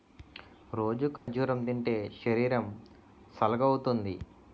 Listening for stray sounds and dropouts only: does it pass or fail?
fail